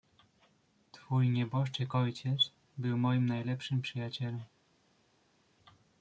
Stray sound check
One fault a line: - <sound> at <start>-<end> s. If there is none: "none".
none